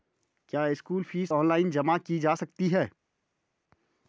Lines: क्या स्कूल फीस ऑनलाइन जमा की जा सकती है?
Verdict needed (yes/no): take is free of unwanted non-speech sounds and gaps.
yes